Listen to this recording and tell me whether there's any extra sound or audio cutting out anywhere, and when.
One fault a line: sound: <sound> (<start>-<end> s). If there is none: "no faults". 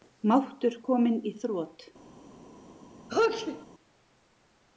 sound: sneeze (3.1-3.7 s)